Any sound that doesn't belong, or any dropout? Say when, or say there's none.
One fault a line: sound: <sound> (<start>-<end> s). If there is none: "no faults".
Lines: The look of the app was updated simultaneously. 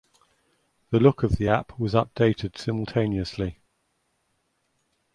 no faults